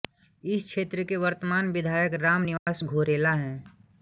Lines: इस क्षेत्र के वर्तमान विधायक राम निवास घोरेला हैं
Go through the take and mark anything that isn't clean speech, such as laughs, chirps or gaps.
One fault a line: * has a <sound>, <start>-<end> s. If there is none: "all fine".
* has a dropout, 2.6-2.7 s